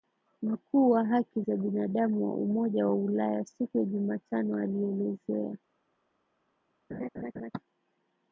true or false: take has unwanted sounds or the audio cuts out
true